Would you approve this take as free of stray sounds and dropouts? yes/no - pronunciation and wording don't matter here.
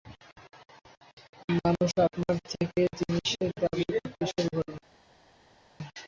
yes